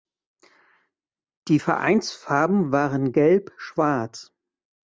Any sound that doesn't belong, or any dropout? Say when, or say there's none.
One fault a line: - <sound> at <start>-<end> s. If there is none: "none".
none